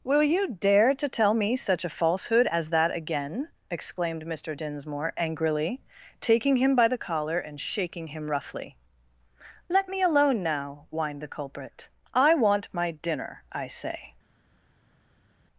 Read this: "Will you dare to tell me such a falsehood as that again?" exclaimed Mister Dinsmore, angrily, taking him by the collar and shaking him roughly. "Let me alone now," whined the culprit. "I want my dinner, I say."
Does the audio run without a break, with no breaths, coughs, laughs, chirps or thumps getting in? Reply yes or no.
yes